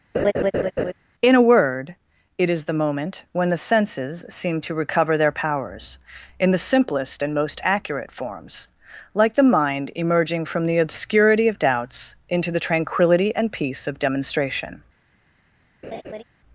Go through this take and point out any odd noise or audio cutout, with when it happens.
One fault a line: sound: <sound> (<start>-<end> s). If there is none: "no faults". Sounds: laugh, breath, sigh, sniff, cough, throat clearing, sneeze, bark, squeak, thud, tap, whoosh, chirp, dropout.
sound: laugh (0.1-0.9 s)
sound: laugh (15.8-16.2 s)